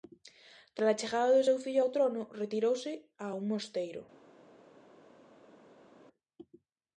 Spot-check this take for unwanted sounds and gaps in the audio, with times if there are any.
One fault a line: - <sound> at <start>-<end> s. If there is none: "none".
none